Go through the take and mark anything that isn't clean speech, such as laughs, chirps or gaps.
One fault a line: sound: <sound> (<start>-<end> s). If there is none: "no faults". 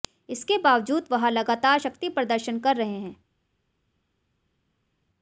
no faults